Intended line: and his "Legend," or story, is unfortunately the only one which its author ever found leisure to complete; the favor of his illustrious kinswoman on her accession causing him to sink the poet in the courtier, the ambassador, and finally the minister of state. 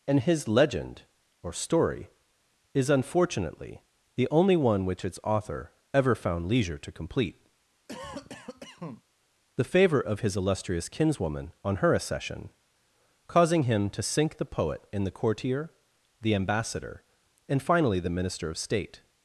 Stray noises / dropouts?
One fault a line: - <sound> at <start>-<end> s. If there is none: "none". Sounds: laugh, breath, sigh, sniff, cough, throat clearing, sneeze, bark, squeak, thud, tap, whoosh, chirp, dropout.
- cough at 7.9-9.0 s